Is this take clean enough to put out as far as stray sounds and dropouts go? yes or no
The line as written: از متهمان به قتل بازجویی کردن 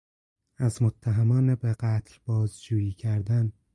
yes